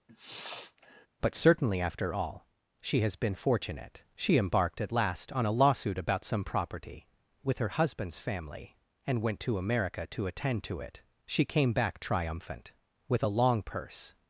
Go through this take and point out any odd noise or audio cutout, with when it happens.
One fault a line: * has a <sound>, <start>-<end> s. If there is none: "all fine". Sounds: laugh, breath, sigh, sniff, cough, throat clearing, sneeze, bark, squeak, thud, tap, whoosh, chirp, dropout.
* has a sniff, 0.1-1.1 s